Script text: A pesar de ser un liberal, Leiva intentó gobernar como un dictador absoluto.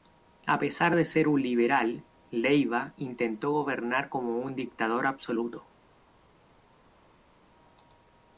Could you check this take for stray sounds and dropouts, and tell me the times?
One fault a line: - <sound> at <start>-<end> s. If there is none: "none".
none